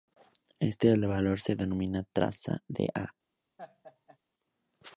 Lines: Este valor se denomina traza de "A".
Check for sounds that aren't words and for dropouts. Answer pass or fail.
fail